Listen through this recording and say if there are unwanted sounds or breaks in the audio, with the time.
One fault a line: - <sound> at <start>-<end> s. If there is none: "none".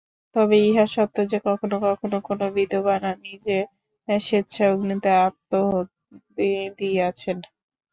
none